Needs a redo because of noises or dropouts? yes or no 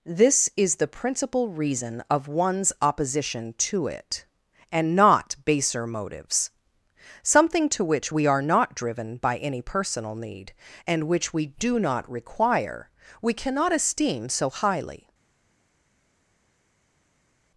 no